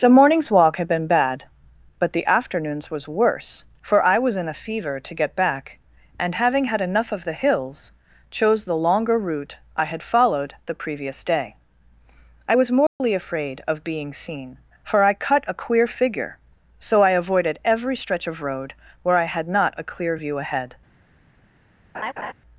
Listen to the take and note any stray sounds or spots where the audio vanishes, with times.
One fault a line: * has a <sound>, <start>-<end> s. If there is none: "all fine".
* has a dropout, 12.9-13.0 s
* has a laugh, 21.9-22.3 s